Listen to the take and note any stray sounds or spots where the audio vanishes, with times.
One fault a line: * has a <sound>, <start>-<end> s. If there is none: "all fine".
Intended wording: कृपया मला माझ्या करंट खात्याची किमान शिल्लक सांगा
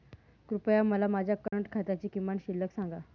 * has a dropout, 1.5-1.5 s